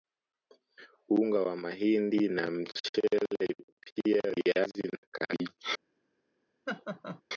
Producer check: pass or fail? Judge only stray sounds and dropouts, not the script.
fail